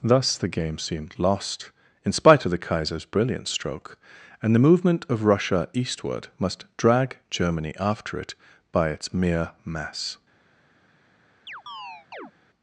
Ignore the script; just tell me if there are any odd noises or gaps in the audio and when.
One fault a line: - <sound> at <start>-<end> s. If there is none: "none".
- chirp at 11.5-12.3 s